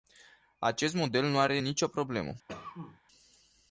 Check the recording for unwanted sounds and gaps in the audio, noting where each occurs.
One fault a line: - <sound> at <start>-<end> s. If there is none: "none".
- cough at 2.5-3.0 s